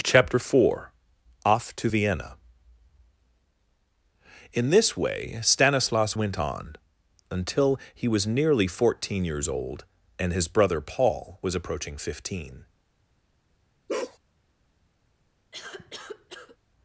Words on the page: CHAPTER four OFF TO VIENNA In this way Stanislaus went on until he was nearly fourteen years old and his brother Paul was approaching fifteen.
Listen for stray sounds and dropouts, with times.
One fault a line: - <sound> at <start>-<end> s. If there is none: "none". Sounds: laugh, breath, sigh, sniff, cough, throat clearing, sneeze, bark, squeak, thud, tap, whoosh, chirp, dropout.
- bark at 13.9-14.2 s
- cough at 15.5-16.6 s